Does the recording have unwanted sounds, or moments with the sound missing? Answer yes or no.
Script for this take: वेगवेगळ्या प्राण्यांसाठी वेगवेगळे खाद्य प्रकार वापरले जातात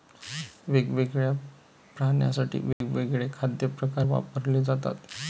yes